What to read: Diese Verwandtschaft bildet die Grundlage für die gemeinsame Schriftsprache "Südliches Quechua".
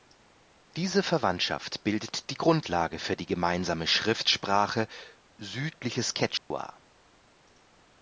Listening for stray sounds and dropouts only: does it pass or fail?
fail